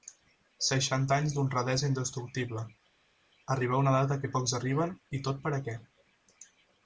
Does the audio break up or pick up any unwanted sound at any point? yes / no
no